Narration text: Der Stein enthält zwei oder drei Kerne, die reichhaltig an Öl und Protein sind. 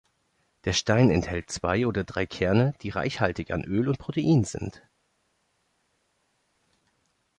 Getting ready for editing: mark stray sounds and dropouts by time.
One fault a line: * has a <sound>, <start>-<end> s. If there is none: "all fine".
all fine